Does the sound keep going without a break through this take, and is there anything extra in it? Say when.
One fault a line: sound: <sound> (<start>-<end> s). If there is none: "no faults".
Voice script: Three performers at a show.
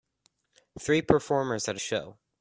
no faults